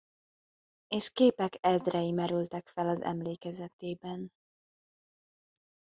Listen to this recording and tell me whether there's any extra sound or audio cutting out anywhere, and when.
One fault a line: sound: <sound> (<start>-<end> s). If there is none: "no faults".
no faults